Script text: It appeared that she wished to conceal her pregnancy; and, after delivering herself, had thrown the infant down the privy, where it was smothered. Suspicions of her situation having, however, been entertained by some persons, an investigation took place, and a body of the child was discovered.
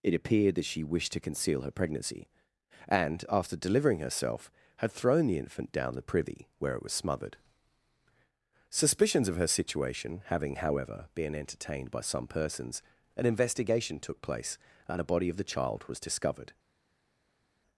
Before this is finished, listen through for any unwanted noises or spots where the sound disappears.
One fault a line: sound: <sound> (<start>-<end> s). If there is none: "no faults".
no faults